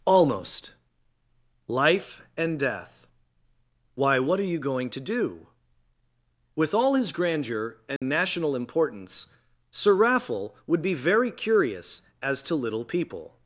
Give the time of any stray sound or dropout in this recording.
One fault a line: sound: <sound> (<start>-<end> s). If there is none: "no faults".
sound: dropout (8.0-8.0 s)